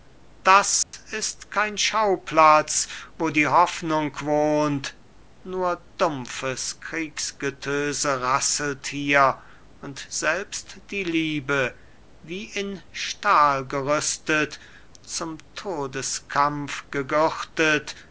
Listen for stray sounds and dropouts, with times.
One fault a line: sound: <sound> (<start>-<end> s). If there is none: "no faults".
sound: dropout (0.8-0.9 s)